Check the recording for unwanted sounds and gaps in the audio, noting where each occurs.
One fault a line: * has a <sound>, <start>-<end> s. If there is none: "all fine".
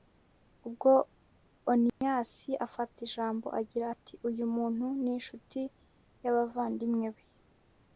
* has a dropout, 1.9-2.0 s